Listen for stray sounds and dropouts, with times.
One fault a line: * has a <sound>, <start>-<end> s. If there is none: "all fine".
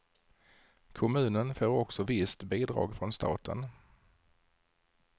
all fine